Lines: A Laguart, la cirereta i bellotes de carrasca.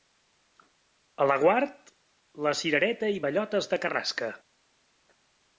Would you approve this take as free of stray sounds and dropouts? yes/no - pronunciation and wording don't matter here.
yes